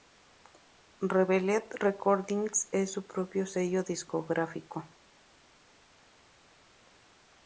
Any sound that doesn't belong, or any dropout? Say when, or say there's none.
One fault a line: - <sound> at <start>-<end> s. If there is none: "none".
none